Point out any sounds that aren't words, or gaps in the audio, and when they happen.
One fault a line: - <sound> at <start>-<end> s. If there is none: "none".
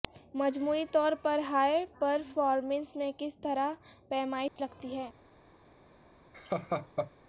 - dropout at 4.5-4.6 s
- laugh at 6.3-7.1 s